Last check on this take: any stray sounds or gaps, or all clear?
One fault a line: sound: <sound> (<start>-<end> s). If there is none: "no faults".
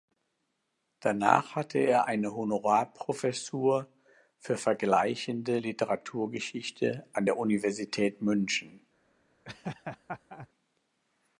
sound: laugh (9.4-10.5 s)